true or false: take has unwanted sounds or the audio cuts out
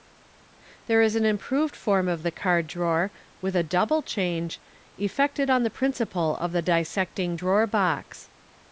false